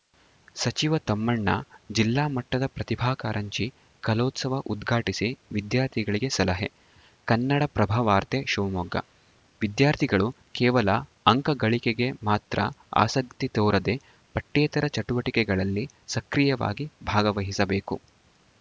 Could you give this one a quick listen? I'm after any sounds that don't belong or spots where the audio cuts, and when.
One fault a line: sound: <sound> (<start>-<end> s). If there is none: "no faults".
no faults